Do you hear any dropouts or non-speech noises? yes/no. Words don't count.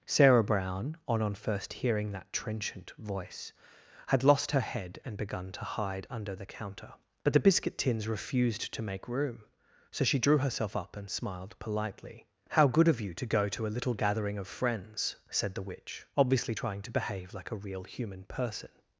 no